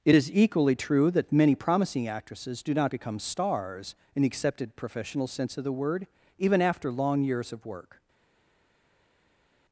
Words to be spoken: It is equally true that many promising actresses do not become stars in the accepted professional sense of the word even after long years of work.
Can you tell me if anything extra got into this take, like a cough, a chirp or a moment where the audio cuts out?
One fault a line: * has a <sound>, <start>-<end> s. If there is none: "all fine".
all fine